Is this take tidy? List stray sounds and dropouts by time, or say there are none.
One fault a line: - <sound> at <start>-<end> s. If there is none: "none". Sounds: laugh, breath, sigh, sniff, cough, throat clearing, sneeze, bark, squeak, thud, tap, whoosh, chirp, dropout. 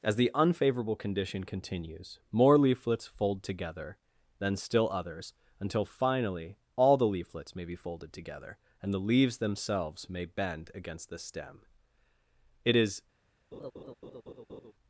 - laugh at 13.5-14.7 s